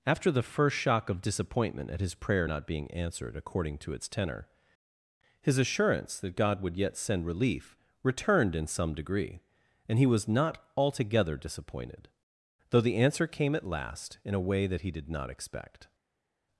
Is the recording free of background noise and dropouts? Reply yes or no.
yes